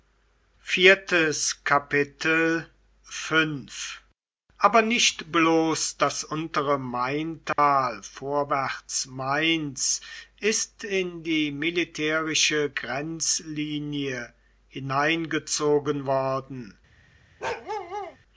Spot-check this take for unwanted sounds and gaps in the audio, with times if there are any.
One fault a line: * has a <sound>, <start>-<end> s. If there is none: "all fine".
* has a dropout, 7.5-7.6 s
* has a bark, 17.4-18.2 s